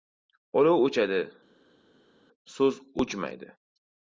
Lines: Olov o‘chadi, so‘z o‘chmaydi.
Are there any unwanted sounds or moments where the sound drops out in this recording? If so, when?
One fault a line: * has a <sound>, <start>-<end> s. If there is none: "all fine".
all fine